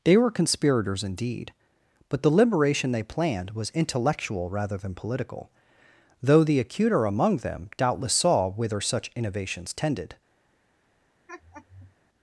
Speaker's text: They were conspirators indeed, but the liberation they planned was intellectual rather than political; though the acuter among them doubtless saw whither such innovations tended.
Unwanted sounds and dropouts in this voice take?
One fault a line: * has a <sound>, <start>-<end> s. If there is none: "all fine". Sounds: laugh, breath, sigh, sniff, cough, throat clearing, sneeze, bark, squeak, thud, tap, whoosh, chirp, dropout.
* has a laugh, 11.3-12.0 s